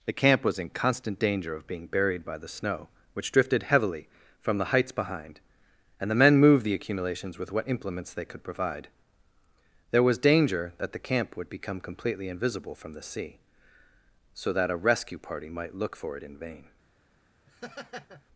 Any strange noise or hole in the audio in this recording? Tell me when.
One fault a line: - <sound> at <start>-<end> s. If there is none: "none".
- laugh at 17.5-18.2 s